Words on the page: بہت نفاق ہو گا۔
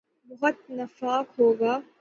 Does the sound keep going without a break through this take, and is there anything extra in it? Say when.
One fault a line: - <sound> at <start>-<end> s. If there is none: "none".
none